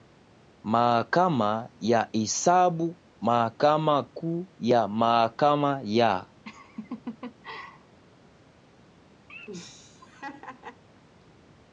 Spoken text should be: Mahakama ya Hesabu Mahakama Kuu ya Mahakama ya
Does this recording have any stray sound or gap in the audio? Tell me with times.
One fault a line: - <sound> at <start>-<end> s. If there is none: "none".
- laugh at 6.4-8.0 s
- laugh at 9.3-10.8 s